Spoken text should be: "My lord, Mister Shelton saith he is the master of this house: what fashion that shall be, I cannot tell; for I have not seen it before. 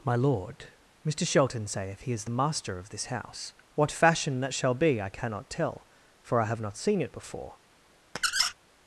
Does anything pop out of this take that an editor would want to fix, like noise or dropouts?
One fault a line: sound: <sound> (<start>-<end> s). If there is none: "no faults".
sound: squeak (8.2-8.5 s)